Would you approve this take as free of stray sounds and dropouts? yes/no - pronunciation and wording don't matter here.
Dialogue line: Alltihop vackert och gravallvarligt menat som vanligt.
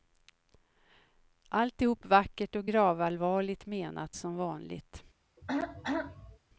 no